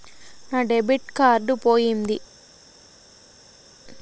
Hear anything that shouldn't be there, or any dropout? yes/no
no